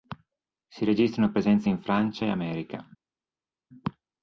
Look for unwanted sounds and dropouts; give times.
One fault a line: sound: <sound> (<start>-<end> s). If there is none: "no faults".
no faults